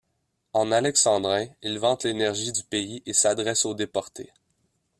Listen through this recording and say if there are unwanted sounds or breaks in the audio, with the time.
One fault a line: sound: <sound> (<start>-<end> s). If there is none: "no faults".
no faults